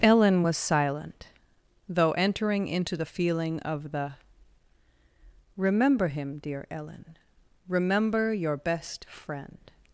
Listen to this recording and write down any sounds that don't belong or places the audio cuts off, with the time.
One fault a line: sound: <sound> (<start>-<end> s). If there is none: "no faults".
no faults